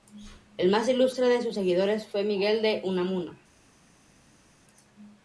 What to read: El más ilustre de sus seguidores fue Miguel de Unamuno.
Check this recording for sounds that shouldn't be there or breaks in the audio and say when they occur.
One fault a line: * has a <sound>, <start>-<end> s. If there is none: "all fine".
all fine